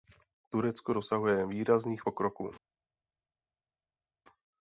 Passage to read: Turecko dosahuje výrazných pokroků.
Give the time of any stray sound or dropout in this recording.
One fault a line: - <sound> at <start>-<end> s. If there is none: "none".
none